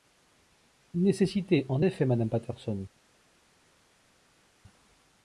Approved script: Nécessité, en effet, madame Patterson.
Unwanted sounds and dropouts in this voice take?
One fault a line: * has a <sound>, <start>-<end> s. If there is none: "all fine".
all fine